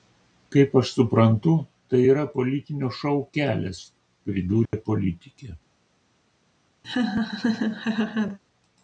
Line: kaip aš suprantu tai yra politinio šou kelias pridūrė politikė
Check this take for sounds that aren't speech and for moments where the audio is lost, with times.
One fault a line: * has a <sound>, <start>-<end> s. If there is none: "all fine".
* has a dropout, 4.7-4.7 s
* has a laugh, 6.8-8.4 s